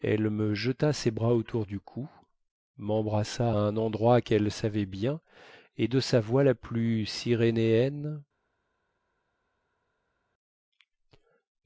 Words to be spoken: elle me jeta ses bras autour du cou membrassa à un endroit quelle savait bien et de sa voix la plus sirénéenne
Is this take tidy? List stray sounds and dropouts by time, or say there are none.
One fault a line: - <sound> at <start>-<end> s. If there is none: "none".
none